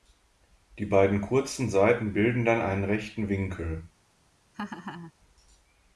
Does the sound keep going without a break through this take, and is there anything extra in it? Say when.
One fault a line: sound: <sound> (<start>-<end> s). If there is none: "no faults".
sound: laugh (4.5-5.1 s)